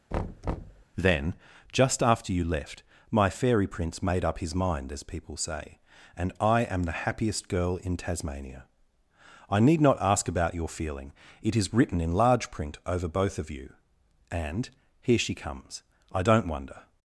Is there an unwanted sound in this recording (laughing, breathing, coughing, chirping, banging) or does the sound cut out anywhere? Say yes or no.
yes